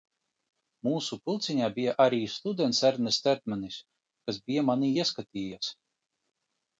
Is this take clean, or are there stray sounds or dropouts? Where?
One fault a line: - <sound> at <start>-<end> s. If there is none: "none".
none